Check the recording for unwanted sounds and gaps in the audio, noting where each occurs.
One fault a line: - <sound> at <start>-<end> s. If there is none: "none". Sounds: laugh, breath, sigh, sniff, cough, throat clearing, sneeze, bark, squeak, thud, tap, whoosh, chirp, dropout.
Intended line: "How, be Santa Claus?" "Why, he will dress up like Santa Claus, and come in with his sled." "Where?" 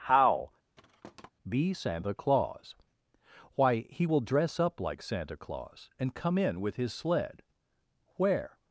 - thud at 0.8-1.3 s